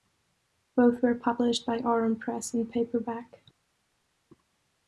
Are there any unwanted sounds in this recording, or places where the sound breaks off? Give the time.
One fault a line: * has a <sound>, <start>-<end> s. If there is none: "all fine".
all fine